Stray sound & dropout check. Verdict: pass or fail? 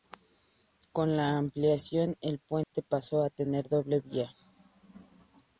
fail